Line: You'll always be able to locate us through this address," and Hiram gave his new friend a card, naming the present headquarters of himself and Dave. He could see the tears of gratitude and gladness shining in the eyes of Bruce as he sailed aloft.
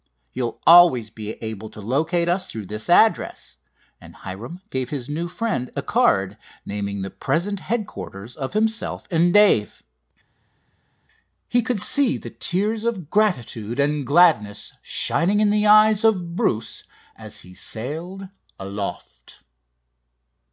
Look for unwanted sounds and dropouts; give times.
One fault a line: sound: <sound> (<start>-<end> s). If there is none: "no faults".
no faults